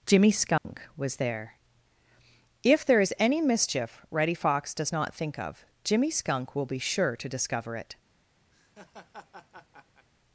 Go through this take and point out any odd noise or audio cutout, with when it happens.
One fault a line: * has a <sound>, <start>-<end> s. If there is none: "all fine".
* has a dropout, 0.6-0.6 s
* has a laugh, 8.5-10.1 s